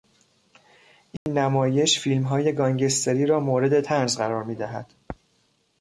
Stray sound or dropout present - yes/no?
yes